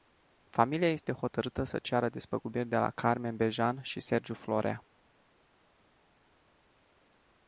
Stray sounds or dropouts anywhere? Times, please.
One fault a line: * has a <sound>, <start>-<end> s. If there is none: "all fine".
all fine